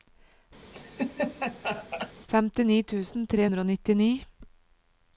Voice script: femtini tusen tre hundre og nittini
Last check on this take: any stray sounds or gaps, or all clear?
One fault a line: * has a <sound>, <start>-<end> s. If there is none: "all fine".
* has a laugh, 0.7-2.1 s